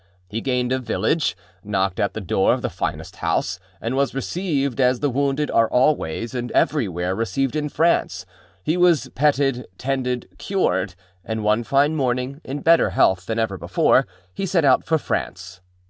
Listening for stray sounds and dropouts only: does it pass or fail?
pass